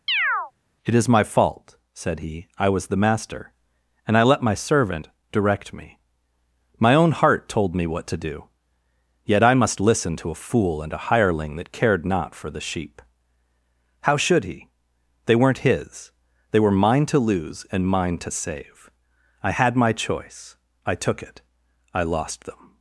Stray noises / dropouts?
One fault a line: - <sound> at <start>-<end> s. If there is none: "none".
- chirp at 0.1-0.5 s